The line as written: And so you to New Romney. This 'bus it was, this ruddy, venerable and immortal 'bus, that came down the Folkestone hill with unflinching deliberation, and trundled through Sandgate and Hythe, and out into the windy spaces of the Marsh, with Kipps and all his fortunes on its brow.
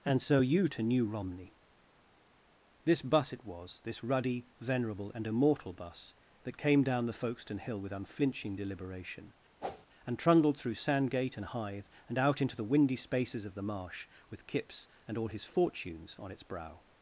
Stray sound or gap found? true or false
true